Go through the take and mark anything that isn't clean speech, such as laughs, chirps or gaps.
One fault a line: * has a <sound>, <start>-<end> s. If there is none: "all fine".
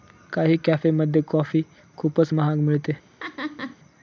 * has a laugh, 3.2-3.8 s